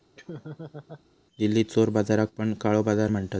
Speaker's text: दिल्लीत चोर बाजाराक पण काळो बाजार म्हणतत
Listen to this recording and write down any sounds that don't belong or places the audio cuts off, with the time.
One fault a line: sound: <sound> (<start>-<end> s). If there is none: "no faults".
sound: laugh (0.1-1.0 s)